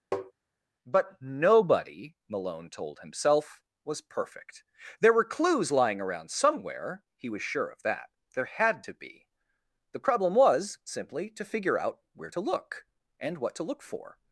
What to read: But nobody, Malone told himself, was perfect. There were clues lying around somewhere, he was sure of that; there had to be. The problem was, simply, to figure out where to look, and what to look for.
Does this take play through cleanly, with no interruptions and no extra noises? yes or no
no